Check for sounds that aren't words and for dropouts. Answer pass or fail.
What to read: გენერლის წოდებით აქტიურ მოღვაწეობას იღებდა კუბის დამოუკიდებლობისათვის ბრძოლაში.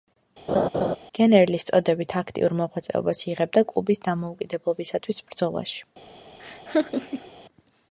fail